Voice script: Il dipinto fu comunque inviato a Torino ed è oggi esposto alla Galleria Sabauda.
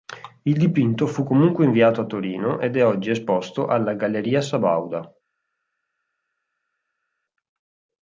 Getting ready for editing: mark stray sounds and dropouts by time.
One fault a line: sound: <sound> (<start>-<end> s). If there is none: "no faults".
no faults